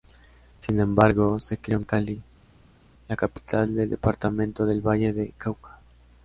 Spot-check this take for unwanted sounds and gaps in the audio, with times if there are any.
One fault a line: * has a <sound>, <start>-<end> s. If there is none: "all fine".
all fine